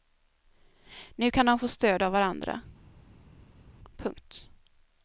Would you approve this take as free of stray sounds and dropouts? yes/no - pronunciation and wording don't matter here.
yes